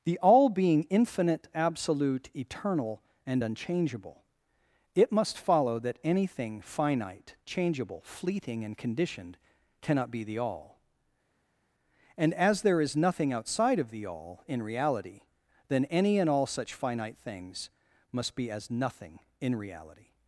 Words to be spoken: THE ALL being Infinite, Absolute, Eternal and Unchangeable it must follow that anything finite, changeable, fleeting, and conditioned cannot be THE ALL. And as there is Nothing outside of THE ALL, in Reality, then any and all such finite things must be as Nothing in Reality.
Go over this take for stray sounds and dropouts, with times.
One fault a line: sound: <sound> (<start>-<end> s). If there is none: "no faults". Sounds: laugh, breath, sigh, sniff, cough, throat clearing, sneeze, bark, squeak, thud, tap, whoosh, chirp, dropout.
no faults